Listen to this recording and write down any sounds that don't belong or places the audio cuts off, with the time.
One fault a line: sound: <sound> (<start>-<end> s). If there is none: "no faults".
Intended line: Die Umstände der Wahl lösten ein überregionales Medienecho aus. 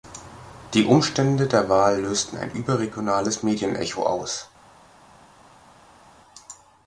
no faults